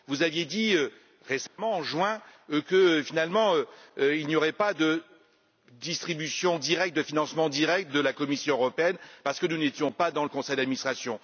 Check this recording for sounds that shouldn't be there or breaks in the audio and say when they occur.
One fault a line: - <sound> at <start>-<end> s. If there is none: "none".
- dropout at 1.5-1.6 s